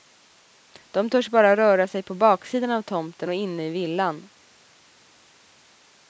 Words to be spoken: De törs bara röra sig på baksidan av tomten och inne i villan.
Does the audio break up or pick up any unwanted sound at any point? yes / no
no